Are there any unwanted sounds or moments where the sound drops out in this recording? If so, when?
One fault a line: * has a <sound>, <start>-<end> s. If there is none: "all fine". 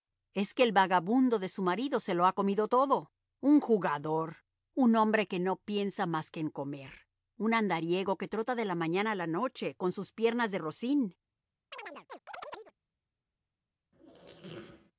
* has a chirp, 11.7-12.7 s
* has a squeak, 13.9-14.9 s